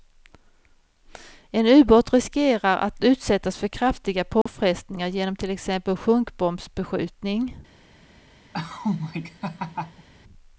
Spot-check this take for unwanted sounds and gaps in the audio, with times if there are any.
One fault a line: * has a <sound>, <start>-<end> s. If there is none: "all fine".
* has a dropout, 4.4-4.5 s
* has a laugh, 8.5-10.1 s